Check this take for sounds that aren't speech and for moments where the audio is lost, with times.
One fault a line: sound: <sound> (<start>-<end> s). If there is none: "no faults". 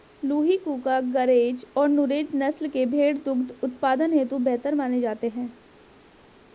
no faults